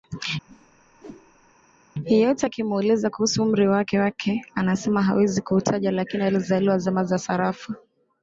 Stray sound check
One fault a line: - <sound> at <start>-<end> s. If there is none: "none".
- whoosh at 0.5-1.6 s